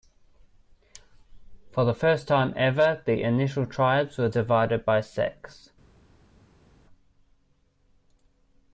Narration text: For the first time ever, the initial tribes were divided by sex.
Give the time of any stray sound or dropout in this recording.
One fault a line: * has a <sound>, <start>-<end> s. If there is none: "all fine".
all fine